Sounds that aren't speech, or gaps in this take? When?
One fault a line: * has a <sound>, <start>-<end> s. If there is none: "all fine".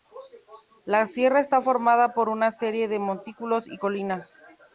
all fine